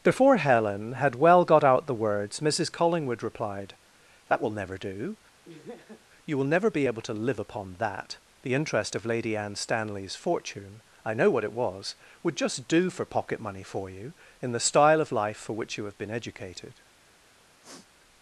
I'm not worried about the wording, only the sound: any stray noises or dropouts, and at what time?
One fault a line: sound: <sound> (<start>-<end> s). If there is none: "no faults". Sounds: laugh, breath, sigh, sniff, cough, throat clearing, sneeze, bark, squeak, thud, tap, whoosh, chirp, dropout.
sound: laugh (5.4-6.1 s)
sound: sniff (17.6-17.9 s)